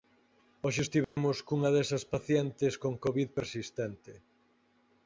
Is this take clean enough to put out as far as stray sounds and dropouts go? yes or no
no